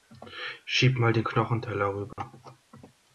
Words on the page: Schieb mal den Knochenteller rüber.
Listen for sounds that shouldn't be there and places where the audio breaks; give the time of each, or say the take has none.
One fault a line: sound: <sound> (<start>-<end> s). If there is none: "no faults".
sound: dropout (2.1-2.2 s)